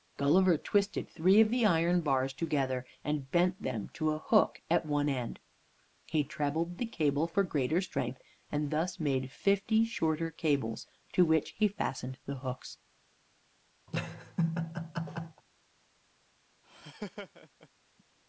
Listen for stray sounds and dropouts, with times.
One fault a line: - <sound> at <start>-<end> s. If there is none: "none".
- laugh at 13.9-15.4 s
- laugh at 16.6-17.7 s